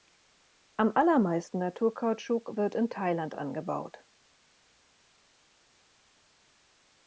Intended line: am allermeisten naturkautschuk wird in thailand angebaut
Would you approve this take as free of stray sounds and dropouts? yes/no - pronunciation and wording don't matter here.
yes